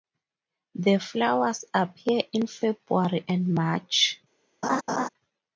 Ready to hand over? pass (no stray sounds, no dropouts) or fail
fail